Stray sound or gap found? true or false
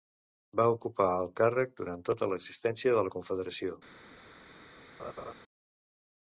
true